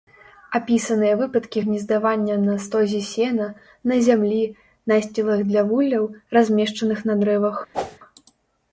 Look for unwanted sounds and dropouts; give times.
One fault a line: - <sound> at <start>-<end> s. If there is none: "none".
- whoosh at 7.7-8.0 s